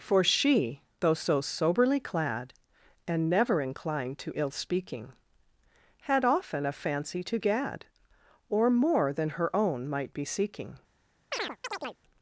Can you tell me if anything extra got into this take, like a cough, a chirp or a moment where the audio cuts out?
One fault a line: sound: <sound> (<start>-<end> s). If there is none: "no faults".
sound: chirp (11.3-12.0 s)